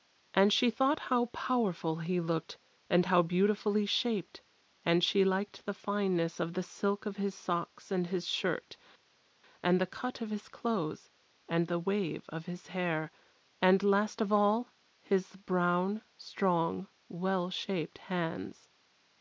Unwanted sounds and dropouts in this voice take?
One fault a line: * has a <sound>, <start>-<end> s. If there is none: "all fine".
all fine